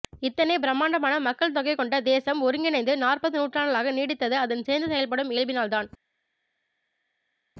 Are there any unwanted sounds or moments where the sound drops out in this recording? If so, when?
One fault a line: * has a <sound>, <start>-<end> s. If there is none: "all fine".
all fine